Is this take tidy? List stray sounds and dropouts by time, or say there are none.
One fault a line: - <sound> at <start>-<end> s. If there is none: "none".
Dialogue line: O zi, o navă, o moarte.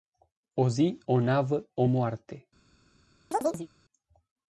- chirp at 3.3-3.7 s